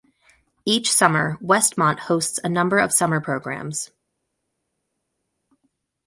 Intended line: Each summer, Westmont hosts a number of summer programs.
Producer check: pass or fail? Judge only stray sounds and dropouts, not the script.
pass